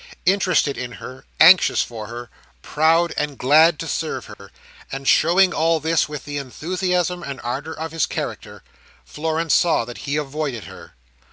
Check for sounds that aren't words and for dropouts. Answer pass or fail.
fail